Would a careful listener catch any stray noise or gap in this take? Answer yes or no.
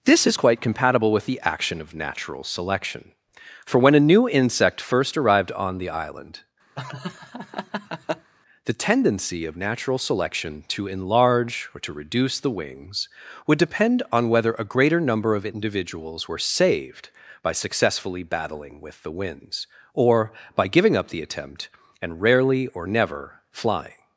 yes